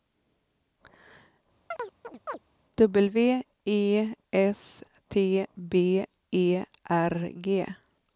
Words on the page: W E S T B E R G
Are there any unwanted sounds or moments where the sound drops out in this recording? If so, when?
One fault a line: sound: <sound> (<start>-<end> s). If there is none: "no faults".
sound: chirp (1.7-2.4 s)